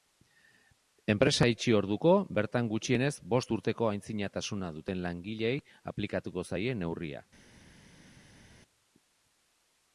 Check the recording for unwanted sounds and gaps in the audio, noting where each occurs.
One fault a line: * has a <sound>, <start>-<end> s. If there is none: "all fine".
all fine